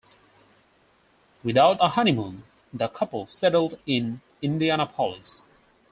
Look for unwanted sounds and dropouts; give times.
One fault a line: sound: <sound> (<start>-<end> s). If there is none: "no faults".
no faults